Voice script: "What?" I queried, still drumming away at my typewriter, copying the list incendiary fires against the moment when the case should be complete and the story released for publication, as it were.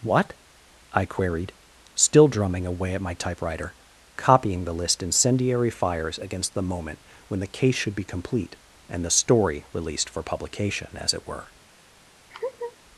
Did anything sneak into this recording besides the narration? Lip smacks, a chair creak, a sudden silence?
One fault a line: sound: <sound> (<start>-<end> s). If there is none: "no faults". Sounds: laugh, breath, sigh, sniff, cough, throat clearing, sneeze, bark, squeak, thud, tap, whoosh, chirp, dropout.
sound: laugh (12.3-12.8 s)